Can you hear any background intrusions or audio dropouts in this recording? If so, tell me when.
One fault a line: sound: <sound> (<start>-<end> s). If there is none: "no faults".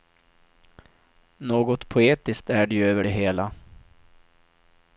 no faults